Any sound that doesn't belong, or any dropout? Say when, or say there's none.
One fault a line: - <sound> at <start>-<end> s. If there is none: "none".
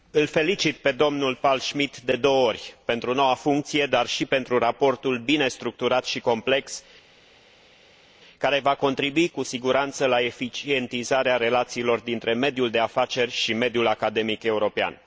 none